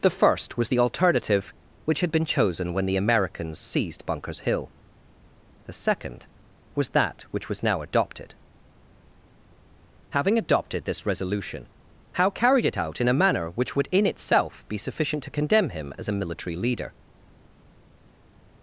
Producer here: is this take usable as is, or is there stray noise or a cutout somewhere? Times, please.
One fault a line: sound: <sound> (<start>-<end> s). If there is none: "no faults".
no faults